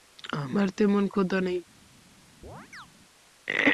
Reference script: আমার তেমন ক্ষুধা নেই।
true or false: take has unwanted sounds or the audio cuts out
true